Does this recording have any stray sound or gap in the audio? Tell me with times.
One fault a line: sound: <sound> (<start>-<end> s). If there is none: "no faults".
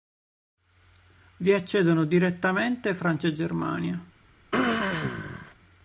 sound: throat clearing (4.5-5.5 s)